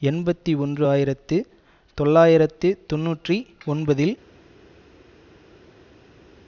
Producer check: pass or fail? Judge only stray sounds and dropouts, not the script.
pass